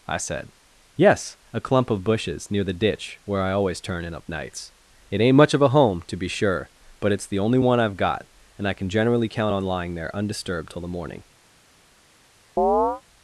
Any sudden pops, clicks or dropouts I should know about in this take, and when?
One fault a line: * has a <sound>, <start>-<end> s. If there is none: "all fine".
* has a chirp, 12.6-13.0 s